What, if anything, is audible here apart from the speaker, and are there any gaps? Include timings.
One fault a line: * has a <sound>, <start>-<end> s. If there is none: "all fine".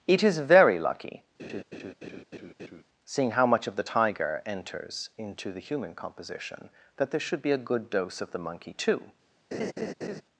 * has a laugh, 1.4-2.8 s
* has a laugh, 9.5-10.2 s